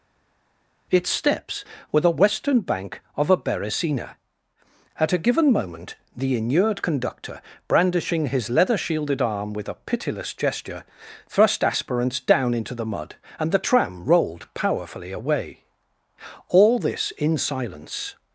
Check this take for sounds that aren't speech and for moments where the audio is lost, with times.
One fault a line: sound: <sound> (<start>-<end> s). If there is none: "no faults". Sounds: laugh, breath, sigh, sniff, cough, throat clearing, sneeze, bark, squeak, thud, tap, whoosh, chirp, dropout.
no faults